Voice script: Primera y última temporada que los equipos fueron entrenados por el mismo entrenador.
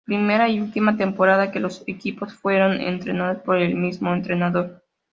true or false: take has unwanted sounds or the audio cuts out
false